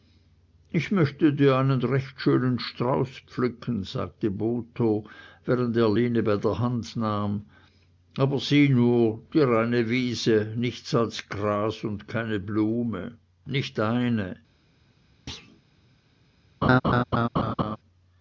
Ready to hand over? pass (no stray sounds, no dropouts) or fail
fail